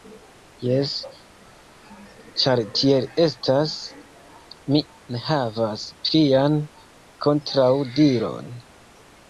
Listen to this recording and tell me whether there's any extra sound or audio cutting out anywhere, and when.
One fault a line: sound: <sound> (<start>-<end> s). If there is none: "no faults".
no faults